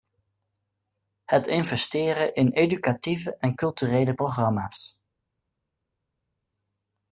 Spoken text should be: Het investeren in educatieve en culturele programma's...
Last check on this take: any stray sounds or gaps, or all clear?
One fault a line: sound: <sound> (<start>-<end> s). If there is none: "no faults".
no faults